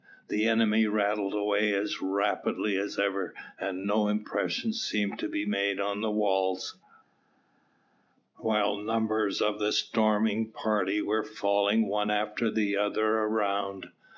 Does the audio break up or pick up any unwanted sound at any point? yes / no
no